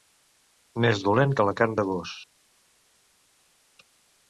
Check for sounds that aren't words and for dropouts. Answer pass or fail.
pass